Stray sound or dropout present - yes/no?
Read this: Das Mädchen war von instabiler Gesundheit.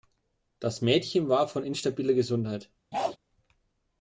yes